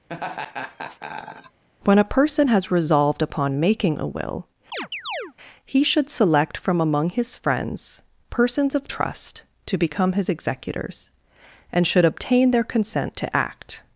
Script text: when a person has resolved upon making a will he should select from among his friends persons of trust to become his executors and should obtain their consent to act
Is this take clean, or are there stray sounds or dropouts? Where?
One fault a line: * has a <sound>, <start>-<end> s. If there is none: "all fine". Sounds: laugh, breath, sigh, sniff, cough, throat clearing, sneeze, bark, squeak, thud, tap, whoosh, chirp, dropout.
* has a laugh, 0.1-1.6 s
* has a chirp, 4.7-5.3 s